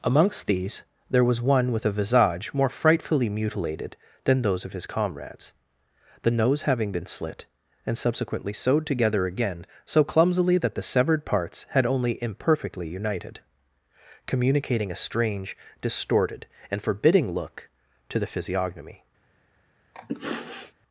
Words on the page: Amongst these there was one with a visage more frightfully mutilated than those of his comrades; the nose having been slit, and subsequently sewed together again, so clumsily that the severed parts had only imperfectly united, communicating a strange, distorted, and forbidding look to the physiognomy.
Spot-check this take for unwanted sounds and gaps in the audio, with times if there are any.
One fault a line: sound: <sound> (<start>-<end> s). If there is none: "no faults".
sound: sniff (19.9-20.7 s)